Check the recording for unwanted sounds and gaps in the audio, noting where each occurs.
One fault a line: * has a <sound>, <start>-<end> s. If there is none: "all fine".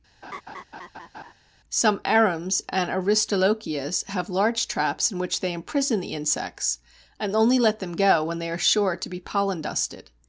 * has a laugh, 0.2-1.3 s